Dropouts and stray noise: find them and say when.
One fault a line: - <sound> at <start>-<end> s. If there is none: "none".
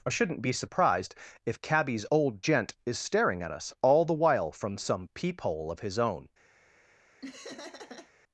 - laugh at 7.2-8.1 s